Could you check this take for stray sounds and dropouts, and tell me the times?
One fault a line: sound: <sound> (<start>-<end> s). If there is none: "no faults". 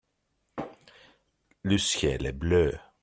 no faults